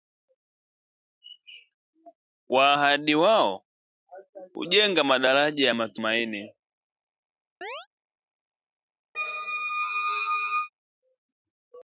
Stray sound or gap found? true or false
true